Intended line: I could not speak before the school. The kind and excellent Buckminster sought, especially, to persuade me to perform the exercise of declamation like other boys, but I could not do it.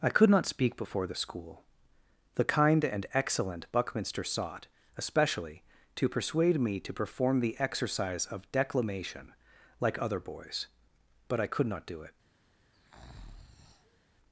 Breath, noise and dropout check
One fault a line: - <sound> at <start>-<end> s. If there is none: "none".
- breath at 12.7-14.0 s